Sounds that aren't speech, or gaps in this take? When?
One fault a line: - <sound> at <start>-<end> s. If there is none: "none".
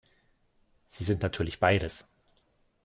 none